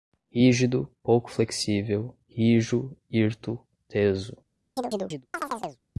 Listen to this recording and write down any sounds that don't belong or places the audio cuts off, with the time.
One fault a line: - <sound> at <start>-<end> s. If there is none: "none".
- chirp at 4.8-5.8 s